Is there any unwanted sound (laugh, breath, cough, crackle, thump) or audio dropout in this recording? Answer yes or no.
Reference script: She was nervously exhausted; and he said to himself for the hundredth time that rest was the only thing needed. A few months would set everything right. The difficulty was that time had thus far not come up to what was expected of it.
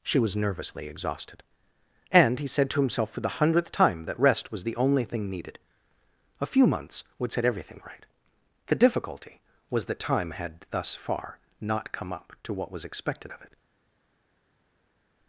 no